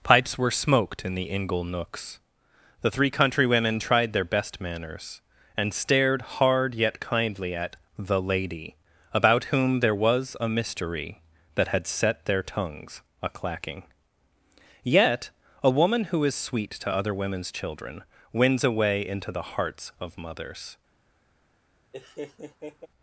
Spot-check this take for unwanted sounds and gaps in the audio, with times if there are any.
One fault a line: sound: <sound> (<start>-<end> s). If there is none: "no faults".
sound: laugh (21.9-22.9 s)